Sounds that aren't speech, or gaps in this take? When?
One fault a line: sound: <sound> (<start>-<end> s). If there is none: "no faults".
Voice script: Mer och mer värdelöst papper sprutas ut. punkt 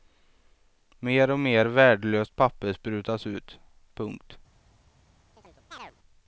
sound: chirp (5.4-6.0 s)